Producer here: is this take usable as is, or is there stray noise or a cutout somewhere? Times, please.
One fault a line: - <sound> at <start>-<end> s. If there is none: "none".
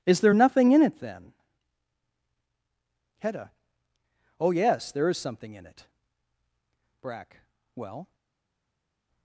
none